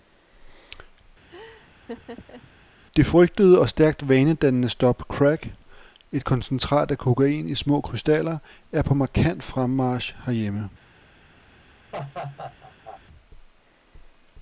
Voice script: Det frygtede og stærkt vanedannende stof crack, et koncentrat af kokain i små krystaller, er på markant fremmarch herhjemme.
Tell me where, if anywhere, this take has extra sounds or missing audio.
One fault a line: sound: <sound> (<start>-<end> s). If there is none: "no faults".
sound: laugh (1.3-2.5 s)
sound: laugh (11.9-13.0 s)